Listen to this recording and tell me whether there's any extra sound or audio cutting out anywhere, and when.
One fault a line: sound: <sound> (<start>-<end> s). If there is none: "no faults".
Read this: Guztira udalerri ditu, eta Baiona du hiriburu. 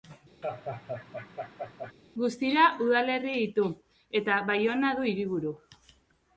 sound: laugh (0.4-1.9 s)